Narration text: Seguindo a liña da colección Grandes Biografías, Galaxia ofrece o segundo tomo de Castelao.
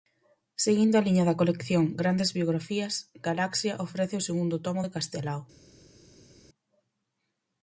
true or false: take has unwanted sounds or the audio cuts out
false